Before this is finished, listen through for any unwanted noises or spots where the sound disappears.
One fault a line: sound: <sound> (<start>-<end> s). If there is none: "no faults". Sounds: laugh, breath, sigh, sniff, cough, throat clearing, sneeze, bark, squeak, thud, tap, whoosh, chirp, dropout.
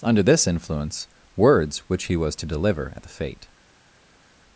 no faults